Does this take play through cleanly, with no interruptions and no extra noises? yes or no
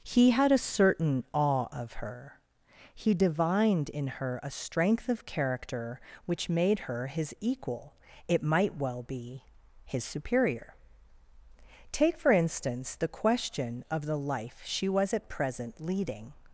yes